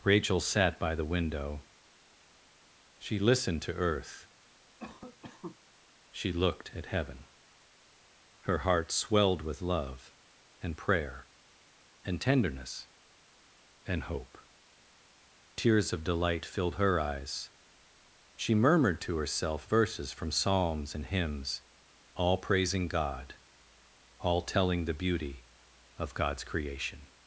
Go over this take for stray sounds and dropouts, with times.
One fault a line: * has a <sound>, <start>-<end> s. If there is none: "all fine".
* has a cough, 4.8-5.6 s